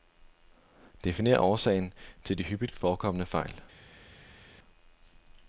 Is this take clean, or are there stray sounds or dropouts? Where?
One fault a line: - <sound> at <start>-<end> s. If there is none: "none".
none